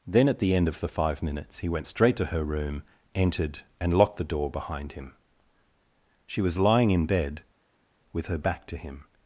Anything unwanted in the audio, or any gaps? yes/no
no